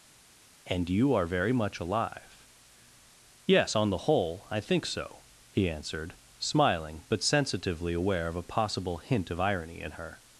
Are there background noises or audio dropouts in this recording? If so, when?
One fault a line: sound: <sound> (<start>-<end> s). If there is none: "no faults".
no faults